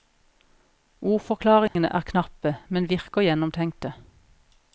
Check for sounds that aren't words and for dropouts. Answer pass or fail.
fail